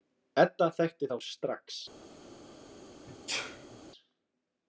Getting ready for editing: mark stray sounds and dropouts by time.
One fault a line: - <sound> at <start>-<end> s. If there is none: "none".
- sneeze at 3.1-3.8 s